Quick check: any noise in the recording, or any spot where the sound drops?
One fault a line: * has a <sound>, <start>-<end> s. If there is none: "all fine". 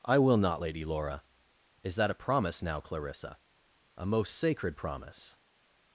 all fine